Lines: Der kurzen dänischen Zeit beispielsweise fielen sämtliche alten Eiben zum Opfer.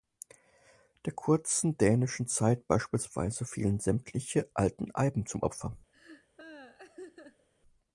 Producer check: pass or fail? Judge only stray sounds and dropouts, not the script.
fail